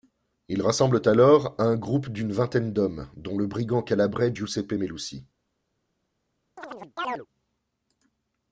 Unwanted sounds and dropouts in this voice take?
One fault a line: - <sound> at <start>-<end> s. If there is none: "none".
- chirp at 6.6-7.3 s